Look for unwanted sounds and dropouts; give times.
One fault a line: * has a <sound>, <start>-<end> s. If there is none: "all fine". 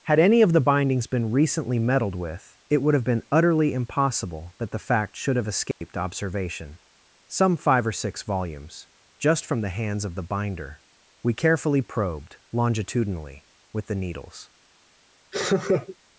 * has a dropout, 5.7-5.8 s
* has a laugh, 15.3-16.0 s